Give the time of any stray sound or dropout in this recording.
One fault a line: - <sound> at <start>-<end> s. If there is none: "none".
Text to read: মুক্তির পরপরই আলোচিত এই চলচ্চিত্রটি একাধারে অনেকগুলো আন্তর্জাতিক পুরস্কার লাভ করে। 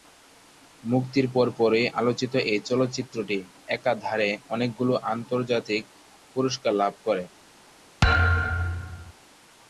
- thud at 8.0-9.1 s